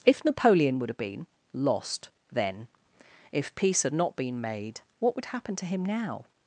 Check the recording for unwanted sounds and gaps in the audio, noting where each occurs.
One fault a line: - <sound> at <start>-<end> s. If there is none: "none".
none